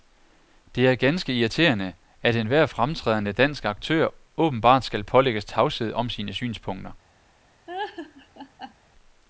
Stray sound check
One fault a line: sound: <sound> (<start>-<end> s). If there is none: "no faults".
sound: laugh (7.7-8.7 s)